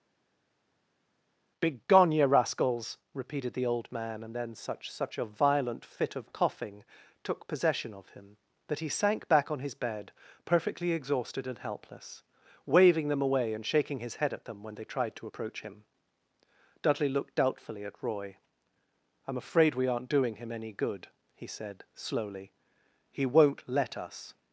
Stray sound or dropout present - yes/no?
no